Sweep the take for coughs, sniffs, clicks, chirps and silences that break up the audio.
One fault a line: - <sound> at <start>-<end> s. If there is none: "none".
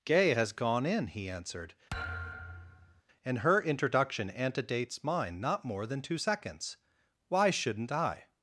- thud at 1.9-3.0 s